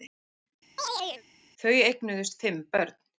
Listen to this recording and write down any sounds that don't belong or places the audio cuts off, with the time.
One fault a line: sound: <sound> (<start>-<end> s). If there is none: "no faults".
sound: chirp (0.8-1.2 s)